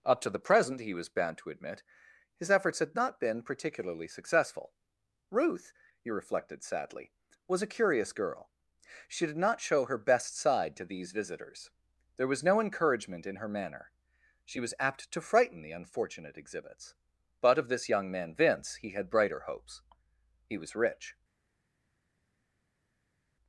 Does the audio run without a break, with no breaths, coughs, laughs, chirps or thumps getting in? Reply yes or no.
yes